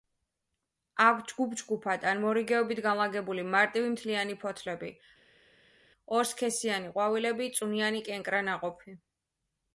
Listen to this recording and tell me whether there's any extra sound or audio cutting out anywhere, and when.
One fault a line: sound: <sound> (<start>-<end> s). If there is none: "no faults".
no faults